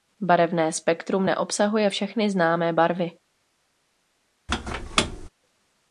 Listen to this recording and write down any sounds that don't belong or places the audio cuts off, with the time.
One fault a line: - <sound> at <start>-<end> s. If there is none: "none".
- squeak at 4.5-5.3 s